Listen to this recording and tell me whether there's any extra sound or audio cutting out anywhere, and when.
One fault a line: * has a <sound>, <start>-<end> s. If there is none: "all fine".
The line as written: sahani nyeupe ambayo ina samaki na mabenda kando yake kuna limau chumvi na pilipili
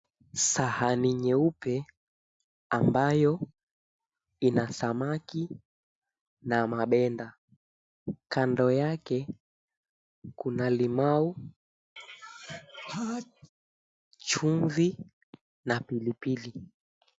* has a sneeze, 12.0-13.5 s